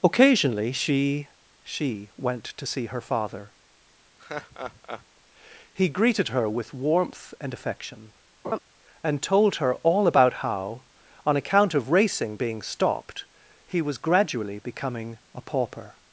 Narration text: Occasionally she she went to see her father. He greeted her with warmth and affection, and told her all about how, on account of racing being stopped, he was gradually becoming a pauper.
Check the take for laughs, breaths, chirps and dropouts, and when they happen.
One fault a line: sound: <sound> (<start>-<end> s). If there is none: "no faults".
sound: laugh (4.2-5.0 s)
sound: laugh (8.4-8.6 s)